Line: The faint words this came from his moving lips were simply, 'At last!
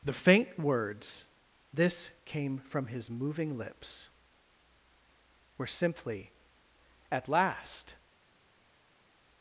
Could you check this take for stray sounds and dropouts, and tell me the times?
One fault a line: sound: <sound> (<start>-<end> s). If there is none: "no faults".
no faults